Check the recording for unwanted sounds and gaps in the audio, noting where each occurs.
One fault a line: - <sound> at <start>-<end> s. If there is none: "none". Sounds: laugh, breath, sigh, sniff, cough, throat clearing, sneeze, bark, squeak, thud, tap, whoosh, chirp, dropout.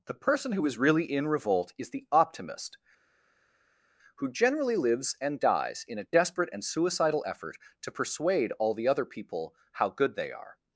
none